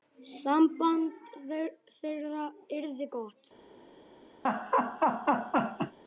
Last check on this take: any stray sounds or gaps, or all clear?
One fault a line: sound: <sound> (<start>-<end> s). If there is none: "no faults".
sound: laugh (4.4-6.0 s)